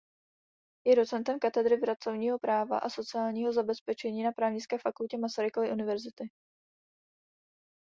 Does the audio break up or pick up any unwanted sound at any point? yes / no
no